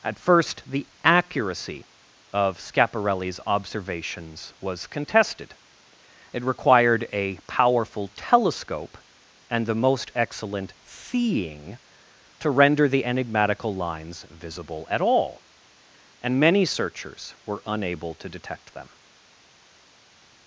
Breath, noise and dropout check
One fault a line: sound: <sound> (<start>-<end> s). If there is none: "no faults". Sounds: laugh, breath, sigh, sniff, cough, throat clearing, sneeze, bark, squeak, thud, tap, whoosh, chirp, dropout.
no faults